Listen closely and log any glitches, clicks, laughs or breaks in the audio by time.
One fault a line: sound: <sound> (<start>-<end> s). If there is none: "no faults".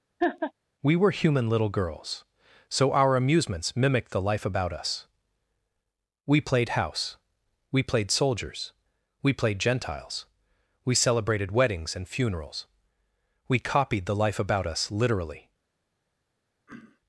sound: laugh (0.2-0.5 s)
sound: throat clearing (16.7-17.0 s)